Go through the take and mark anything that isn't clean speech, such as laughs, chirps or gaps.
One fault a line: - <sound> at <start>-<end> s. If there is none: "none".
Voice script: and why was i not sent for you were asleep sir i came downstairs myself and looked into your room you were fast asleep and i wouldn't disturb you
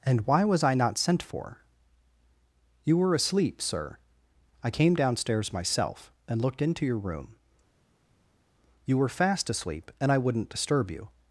none